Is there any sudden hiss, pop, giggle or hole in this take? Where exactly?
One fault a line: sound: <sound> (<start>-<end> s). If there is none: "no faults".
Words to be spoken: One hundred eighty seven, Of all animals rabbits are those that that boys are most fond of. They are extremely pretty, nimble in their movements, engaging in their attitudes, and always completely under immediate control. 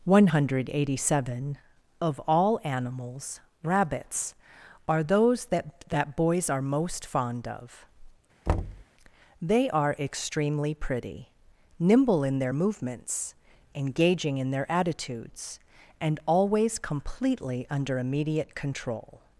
sound: thud (8.5-8.8 s)